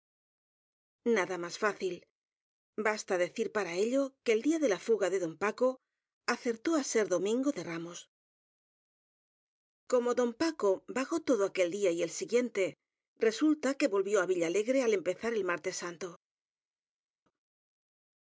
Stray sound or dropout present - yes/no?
no